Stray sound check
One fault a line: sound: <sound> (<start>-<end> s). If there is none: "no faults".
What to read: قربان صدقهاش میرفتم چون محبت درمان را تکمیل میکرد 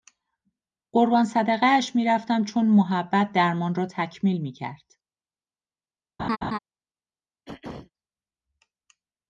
sound: laugh (6.2-6.6 s)
sound: throat clearing (7.5-7.9 s)